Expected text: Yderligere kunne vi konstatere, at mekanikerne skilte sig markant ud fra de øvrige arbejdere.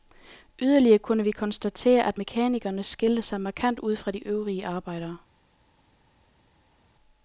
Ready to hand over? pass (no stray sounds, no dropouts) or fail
pass